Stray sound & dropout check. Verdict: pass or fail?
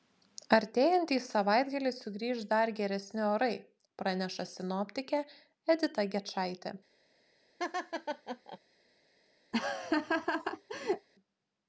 fail